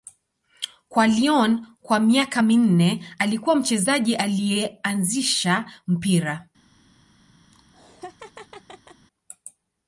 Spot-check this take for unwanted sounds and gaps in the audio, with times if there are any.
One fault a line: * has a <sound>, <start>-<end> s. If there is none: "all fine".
* has a laugh, 7.5-9.1 s